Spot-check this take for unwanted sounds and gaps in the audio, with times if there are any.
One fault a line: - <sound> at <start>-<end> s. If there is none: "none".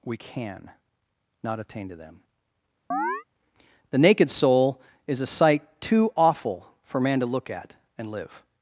- chirp at 2.9-3.2 s